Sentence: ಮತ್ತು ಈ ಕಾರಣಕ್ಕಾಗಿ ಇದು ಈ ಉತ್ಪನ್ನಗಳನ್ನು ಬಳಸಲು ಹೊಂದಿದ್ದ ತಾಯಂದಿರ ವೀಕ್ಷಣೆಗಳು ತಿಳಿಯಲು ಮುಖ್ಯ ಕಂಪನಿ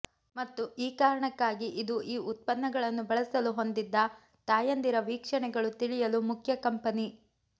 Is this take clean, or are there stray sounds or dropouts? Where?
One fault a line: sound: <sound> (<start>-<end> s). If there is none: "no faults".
no faults